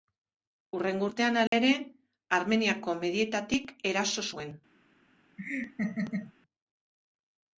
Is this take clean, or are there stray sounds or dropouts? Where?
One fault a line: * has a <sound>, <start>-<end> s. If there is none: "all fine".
* has a dropout, 1.5-1.5 s
* has a laugh, 5.4-6.3 s